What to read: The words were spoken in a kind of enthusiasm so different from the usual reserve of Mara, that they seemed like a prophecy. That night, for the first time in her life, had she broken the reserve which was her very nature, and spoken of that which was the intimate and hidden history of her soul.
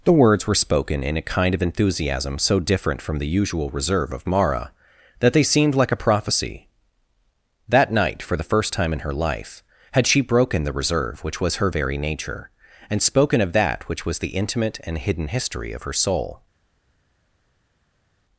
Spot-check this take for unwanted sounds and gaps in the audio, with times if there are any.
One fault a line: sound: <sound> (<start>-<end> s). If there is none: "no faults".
no faults